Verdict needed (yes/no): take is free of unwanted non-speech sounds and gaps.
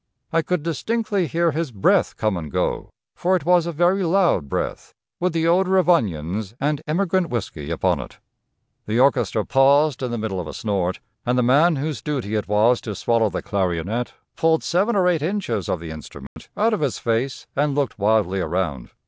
no